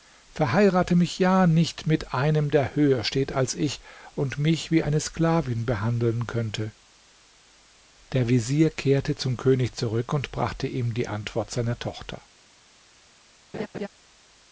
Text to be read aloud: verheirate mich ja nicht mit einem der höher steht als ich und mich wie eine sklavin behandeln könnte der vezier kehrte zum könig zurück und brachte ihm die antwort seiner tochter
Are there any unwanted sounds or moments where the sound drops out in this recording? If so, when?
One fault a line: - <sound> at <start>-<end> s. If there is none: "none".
- laugh at 13.5-13.9 s